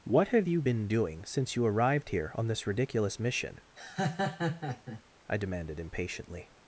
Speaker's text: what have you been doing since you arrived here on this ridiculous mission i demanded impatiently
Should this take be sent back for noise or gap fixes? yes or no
yes